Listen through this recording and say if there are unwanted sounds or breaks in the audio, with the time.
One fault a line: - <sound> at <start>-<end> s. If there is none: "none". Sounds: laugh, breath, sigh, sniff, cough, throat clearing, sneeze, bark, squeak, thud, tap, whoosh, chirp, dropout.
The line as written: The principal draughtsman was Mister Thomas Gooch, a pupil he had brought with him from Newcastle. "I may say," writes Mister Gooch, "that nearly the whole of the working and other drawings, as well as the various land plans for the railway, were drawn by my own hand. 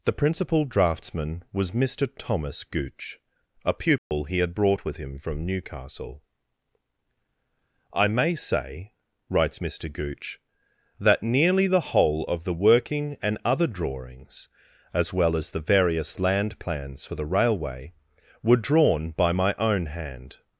- dropout at 4.0-4.1 s